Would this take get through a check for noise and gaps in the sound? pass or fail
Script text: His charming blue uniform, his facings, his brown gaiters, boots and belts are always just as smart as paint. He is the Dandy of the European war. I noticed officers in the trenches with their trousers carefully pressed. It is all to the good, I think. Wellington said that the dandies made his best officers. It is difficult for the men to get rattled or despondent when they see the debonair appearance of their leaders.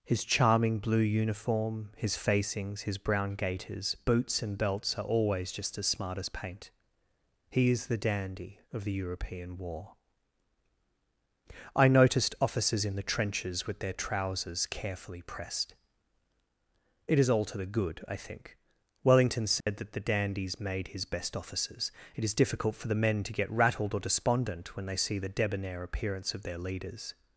fail